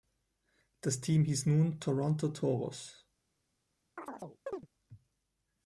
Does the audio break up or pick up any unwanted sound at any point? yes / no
yes